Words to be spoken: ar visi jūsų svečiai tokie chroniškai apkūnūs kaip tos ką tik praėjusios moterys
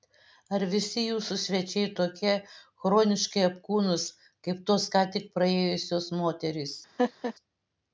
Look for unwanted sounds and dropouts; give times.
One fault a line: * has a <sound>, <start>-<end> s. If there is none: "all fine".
* has a laugh, 7.0-7.3 s